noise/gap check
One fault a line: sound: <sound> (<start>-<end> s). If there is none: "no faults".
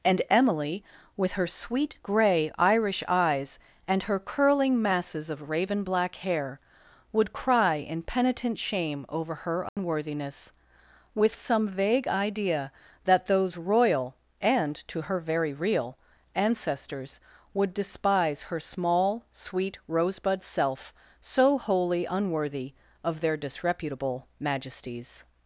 sound: dropout (9.7-9.8 s)